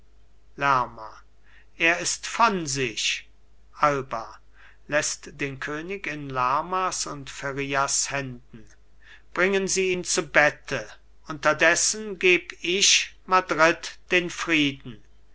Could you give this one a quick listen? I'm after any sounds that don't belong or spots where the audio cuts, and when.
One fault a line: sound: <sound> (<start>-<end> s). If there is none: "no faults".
no faults